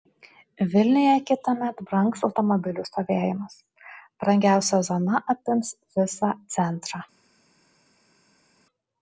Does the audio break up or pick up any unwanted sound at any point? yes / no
no